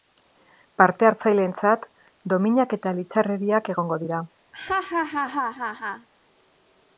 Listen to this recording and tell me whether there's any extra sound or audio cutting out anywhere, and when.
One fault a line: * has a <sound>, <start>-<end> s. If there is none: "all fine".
* has a laugh, 4.5-6.1 s